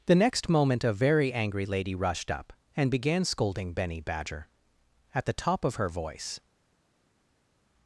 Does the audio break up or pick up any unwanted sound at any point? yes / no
no